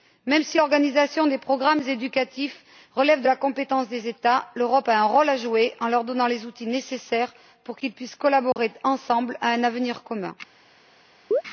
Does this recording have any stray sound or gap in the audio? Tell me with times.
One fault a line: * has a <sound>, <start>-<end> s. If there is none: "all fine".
* has a dropout, 8.5-8.6 s
* has a chirp, 11.3-11.4 s